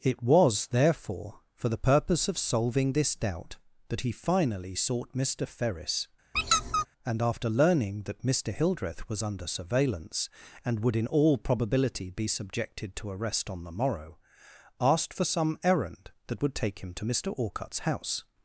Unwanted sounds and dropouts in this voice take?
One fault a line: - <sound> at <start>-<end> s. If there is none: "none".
- squeak at 6.3-6.9 s